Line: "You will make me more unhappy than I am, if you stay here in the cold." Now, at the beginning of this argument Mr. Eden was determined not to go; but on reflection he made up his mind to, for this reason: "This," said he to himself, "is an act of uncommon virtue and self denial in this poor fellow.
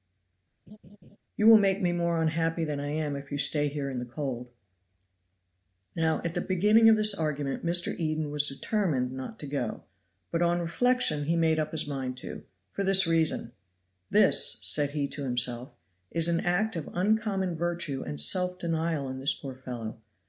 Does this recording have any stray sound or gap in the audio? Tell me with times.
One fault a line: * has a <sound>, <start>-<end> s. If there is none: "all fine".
* has a laugh, 0.7-1.2 s